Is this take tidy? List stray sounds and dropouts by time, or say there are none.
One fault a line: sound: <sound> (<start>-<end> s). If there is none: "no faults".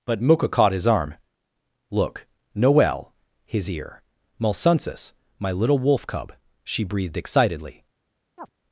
sound: chirp (8.4-8.5 s)